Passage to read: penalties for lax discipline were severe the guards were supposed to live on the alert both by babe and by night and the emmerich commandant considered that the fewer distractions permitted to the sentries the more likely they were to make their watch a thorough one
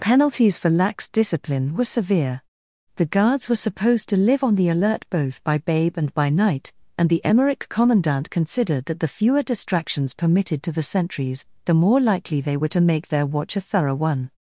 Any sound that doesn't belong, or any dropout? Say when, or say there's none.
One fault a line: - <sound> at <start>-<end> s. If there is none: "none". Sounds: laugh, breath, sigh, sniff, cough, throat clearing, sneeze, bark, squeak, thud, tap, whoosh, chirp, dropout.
none